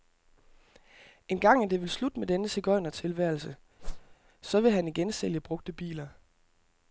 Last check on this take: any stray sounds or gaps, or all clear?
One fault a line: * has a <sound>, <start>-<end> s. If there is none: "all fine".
* has a whoosh, 3.8-4.2 s